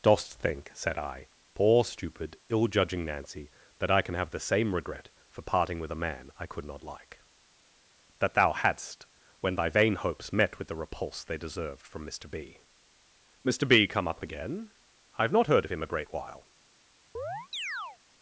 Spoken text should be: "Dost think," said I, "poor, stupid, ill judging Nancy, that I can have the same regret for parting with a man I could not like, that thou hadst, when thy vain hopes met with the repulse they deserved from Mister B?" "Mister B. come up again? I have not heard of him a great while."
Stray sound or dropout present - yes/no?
yes